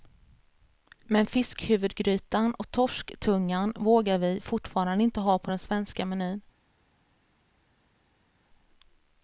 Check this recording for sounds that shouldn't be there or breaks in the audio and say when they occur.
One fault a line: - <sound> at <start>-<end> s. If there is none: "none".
none